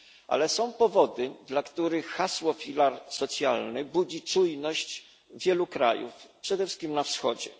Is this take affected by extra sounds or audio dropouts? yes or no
no